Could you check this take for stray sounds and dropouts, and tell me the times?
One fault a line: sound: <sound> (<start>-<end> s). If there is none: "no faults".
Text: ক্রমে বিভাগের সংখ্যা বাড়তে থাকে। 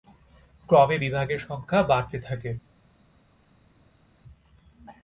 no faults